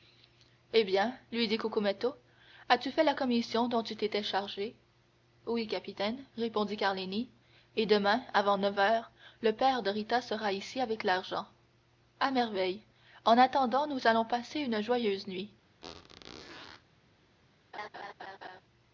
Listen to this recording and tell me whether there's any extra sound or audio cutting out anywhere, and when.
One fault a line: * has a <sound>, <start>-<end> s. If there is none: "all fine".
* has a squeak, 15.8-16.8 s
* has a laugh, 17.7-18.6 s